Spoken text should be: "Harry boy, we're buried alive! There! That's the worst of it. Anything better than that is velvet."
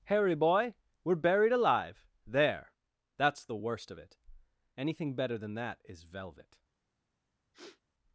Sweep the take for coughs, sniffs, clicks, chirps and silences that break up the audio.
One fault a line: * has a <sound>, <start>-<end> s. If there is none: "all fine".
* has a sniff, 7.5-7.8 s